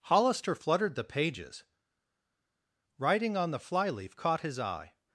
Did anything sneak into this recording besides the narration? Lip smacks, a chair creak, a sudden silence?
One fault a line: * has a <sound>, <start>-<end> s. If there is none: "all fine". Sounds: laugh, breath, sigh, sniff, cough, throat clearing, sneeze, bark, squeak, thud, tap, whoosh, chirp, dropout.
all fine